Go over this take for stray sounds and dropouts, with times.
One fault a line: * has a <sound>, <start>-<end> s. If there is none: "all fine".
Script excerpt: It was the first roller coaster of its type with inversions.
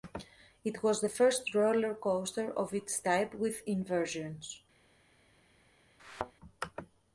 * has a thud, 6.0-6.3 s